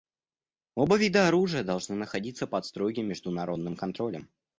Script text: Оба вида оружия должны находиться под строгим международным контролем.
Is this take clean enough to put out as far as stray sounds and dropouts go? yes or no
yes